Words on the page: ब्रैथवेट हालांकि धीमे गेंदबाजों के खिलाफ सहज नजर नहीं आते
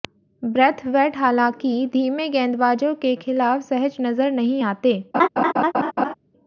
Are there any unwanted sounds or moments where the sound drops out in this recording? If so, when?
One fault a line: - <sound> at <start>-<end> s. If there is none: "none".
- laugh at 5.1-6.1 s